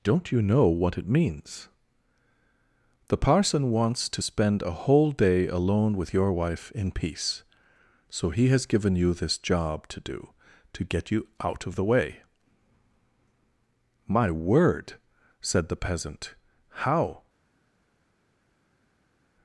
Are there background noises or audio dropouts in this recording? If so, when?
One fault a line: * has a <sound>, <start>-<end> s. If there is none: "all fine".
all fine